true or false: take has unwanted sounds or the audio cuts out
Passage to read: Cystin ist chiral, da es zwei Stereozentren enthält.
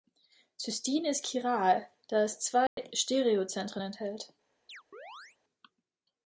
true